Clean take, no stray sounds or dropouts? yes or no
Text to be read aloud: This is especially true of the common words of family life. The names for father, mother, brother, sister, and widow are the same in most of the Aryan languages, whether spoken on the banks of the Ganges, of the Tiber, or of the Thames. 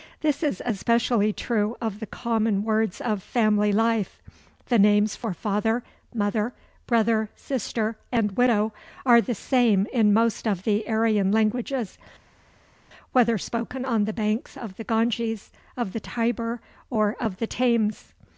yes